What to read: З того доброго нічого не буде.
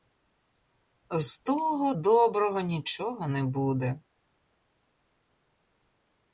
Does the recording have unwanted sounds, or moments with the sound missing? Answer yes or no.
no